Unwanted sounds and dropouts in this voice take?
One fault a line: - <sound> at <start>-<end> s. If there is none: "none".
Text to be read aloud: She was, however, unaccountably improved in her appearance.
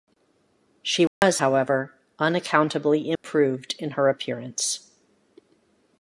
- dropout at 1.1-1.2 s
- dropout at 3.2-3.2 s